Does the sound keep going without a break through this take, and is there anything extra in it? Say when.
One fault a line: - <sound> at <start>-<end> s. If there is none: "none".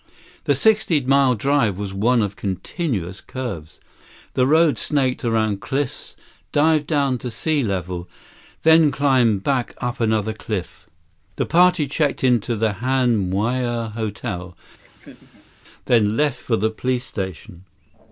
- laugh at 14.8-15.5 s